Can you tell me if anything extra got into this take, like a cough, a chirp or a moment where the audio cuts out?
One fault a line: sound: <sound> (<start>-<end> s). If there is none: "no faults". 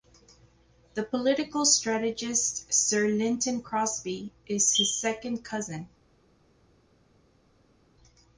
no faults